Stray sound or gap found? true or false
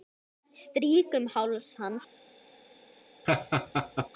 true